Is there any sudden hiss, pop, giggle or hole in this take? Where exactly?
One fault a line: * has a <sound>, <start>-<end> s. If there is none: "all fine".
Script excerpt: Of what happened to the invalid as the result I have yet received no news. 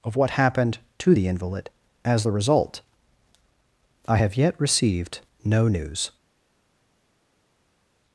all fine